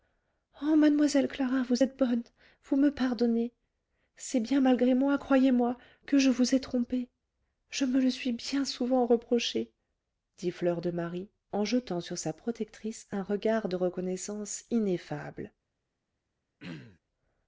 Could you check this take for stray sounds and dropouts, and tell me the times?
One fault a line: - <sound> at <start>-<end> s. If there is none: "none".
- throat clearing at 16.6-17.0 s